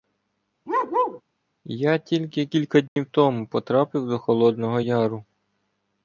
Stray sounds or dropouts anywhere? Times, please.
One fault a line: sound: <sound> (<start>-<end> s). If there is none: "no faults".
sound: bark (0.7-1.2 s)
sound: dropout (2.9-3.0 s)